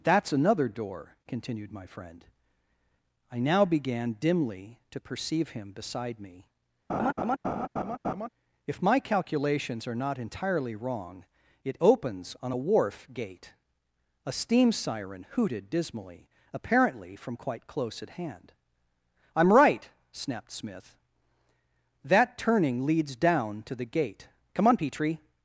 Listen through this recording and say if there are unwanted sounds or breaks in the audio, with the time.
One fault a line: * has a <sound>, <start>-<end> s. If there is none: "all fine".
* has a laugh, 6.9-8.3 s